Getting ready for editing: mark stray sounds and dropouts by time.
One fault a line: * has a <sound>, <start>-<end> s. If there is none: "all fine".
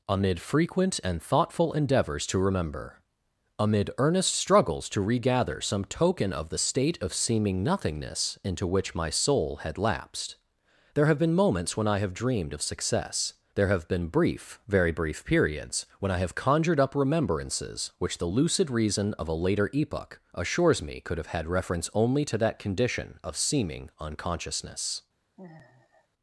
* has a sigh, 25.4-26.1 s